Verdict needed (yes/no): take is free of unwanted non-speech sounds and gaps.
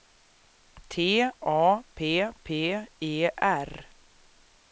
yes